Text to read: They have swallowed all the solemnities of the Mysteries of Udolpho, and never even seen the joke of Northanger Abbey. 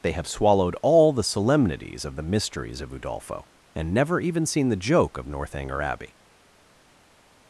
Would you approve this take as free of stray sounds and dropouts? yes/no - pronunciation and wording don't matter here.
yes